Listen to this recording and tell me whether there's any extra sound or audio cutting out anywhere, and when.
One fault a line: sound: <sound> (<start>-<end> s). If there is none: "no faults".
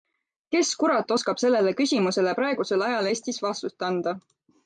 no faults